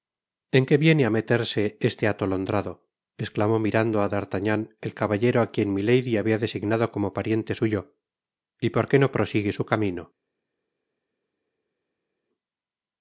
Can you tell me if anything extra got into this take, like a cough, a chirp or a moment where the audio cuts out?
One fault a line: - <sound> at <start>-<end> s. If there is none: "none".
none